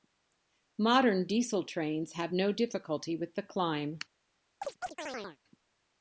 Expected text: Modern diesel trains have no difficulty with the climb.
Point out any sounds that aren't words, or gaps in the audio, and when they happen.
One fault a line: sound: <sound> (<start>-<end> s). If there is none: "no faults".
sound: chirp (4.6-5.4 s)